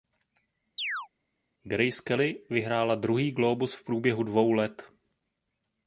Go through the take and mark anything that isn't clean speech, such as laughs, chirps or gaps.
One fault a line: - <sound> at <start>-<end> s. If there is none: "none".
- chirp at 0.8-1.1 s